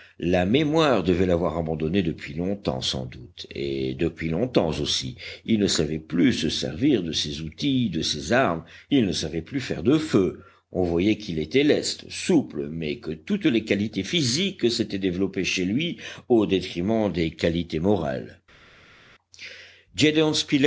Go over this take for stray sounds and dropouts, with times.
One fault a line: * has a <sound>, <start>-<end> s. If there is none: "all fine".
all fine